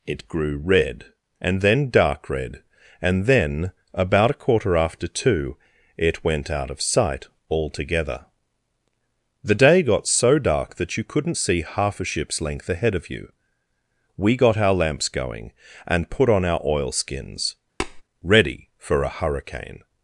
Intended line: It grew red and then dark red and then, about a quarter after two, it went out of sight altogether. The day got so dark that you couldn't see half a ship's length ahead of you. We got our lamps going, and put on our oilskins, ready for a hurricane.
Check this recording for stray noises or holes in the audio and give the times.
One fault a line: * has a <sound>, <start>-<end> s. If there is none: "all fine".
* has a tap, 17.8-18.0 s